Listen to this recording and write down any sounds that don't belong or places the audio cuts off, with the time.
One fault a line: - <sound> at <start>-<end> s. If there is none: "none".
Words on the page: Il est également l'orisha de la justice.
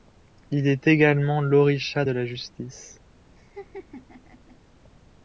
- laugh at 3.4-4.6 s